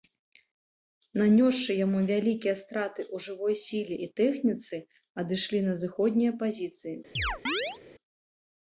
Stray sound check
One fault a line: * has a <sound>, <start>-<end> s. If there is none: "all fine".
* has a chirp, 7.2-7.8 s